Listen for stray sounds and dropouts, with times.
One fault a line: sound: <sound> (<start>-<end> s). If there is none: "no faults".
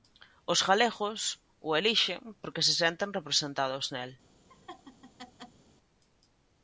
sound: laugh (4.5-5.6 s)